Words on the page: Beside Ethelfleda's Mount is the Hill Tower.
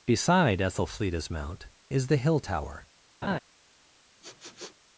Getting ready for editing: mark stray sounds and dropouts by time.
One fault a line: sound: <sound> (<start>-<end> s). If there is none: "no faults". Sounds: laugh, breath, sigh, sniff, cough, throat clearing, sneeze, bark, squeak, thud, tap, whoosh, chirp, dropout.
sound: laugh (3.2-3.4 s)
sound: sniff (4.2-4.8 s)